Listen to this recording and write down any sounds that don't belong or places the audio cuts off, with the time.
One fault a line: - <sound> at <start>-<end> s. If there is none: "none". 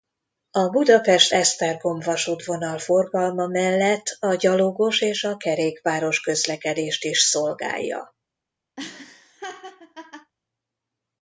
- laugh at 8.8-10.3 s